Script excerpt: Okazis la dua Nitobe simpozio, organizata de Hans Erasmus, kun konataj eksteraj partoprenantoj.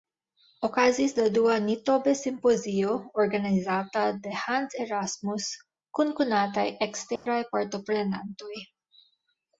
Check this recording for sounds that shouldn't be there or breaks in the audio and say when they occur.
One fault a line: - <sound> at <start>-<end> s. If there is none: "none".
- dropout at 7.2-7.3 s